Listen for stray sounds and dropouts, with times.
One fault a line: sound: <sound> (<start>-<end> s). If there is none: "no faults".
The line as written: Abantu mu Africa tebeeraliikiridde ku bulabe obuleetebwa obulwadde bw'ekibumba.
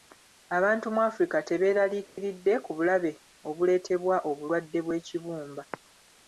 sound: dropout (2.1-2.2 s)